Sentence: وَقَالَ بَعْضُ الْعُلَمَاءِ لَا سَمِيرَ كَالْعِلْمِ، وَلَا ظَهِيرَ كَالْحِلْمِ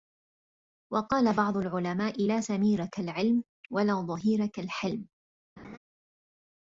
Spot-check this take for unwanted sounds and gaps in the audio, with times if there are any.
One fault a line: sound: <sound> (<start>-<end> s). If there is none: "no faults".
sound: laugh (5.6-5.8 s)